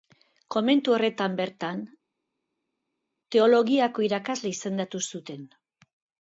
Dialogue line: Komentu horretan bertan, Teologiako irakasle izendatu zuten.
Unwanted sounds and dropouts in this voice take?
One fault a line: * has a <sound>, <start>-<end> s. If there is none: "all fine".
all fine